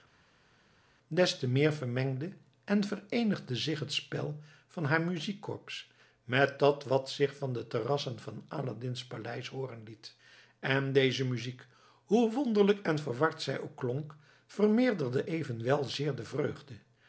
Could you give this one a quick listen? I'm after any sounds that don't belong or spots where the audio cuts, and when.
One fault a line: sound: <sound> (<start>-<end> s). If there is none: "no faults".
no faults